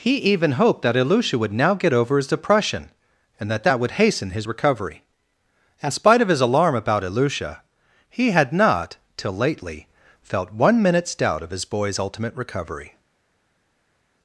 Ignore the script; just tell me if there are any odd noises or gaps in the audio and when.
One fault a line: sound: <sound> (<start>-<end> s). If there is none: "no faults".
no faults